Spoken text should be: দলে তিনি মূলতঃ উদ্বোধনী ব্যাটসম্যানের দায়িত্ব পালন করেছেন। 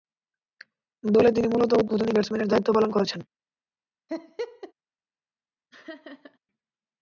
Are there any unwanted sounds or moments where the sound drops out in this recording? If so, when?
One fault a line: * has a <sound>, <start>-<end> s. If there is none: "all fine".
* has a laugh, 4.1-4.7 s
* has a laugh, 5.7-6.4 s